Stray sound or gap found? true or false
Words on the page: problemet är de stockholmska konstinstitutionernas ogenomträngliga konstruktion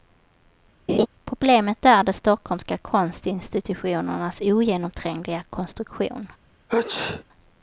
true